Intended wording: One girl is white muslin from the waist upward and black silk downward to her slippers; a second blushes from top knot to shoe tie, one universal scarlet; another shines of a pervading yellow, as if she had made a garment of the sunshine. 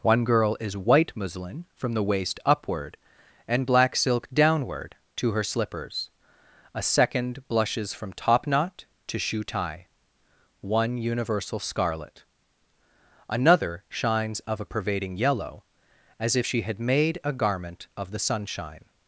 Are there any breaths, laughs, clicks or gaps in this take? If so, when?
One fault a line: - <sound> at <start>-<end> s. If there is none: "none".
none